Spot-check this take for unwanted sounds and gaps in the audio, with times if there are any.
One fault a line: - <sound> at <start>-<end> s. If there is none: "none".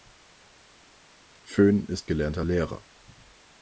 none